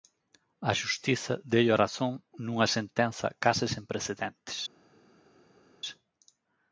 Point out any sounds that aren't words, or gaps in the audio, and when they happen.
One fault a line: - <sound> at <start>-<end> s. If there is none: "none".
none